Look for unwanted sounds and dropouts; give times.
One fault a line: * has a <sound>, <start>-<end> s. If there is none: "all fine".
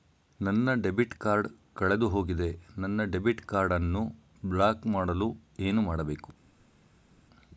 all fine